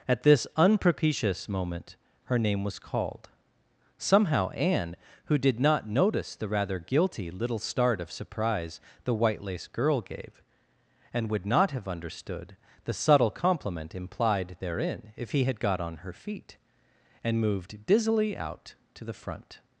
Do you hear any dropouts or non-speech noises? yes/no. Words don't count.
no